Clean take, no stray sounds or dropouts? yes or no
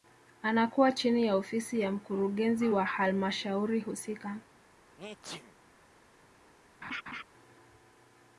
no